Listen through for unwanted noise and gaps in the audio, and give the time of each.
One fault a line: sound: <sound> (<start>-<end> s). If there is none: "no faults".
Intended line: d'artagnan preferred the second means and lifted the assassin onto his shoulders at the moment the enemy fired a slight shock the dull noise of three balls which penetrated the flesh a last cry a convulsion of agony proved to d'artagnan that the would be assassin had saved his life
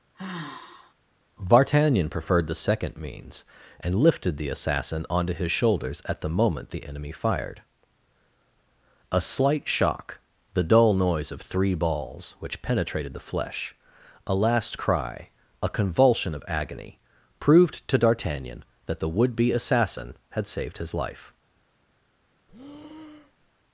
sound: sigh (0.1-0.9 s)
sound: breath (22.5-23.5 s)